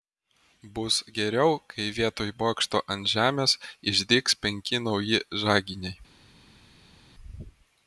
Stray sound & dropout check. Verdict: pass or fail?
pass